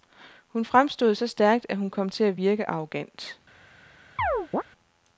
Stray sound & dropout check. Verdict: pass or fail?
fail